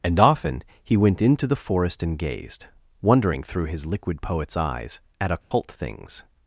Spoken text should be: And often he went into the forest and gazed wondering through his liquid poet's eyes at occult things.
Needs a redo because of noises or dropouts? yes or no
yes